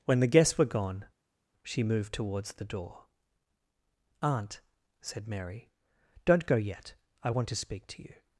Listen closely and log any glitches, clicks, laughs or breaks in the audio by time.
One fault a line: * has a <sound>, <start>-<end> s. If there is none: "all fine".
all fine